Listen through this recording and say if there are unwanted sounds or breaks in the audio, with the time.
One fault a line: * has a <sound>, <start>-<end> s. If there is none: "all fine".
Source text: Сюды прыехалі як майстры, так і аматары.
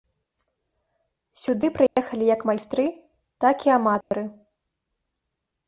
* has a dropout, 1.9-2.0 s
* has a dropout, 4.0-4.1 s